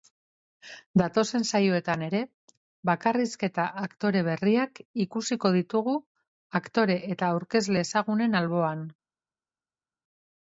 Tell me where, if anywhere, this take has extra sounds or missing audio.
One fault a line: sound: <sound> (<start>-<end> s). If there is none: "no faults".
no faults